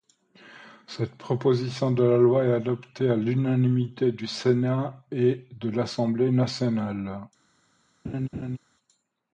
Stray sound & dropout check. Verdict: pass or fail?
fail